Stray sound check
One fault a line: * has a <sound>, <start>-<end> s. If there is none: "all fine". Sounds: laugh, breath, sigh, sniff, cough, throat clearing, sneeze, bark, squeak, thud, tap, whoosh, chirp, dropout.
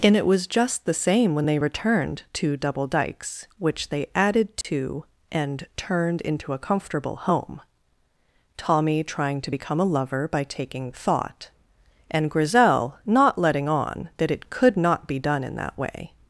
* has a dropout, 4.6-4.6 s